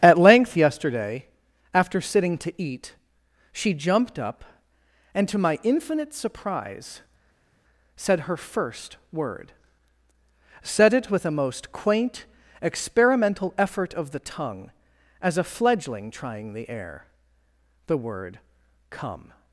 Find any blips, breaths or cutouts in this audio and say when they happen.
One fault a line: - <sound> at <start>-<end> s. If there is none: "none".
none